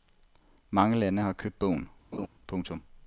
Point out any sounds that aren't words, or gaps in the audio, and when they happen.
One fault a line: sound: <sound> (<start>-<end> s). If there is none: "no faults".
sound: laugh (2.1-2.3 s)